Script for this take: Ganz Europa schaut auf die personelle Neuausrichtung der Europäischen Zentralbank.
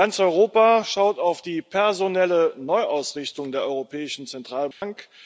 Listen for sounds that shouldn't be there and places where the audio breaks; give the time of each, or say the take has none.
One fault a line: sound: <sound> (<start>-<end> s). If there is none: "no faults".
sound: dropout (4.7-4.8 s)